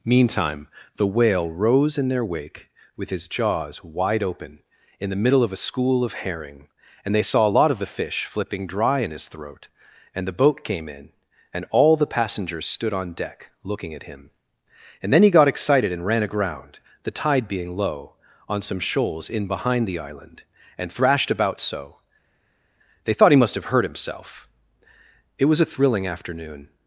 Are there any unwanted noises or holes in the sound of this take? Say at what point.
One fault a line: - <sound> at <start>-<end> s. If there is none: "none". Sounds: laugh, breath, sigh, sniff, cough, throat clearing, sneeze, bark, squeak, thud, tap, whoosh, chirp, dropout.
none